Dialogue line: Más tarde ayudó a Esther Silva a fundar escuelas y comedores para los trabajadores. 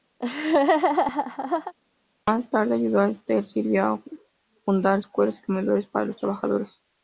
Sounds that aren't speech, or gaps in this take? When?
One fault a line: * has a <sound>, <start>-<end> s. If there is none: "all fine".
* has a laugh, 0.2-1.7 s